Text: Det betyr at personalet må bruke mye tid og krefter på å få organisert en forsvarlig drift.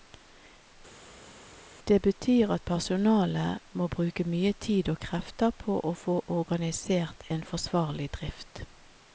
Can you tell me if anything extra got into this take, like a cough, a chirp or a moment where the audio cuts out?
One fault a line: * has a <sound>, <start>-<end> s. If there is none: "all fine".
all fine